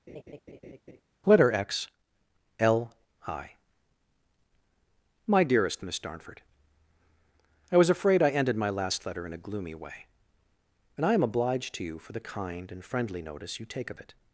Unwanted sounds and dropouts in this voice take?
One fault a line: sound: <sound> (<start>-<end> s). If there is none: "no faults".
sound: laugh (0.1-1.0 s)